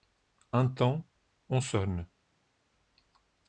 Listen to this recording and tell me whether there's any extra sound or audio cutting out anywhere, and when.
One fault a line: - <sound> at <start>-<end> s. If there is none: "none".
none